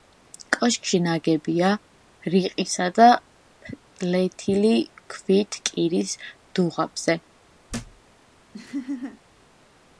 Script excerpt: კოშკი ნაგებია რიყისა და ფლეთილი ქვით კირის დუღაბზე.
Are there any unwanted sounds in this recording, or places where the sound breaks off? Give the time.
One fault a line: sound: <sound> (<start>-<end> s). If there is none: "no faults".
sound: thud (7.7-8.0 s)
sound: laugh (8.5-9.2 s)